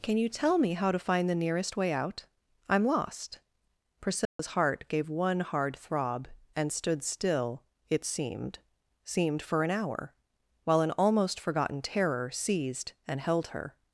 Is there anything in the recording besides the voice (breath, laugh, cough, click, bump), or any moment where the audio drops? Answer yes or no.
yes